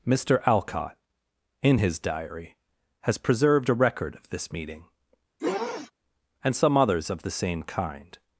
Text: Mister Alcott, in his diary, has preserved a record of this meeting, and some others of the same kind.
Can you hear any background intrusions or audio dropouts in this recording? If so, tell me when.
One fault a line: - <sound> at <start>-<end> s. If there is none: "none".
- sniff at 5.4-5.9 s